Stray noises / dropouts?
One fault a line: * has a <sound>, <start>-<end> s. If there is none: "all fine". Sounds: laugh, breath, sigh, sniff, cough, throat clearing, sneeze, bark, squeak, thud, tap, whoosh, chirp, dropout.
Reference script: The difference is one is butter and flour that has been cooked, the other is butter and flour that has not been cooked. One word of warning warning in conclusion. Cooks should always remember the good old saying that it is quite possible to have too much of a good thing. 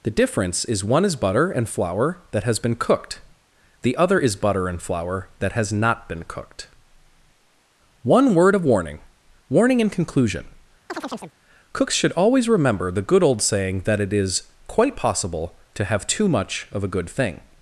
* has a chirp, 10.9-11.3 s